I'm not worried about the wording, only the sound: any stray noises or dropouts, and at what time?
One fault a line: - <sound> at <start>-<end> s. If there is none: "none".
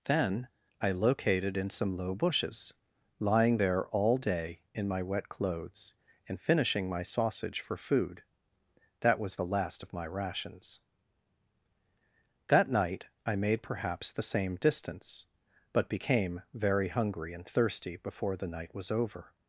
none